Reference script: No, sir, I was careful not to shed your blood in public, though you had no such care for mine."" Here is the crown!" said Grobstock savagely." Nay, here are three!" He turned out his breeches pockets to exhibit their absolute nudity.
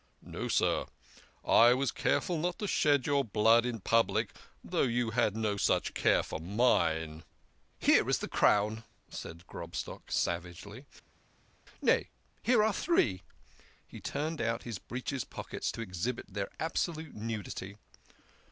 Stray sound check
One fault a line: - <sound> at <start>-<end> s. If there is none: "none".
none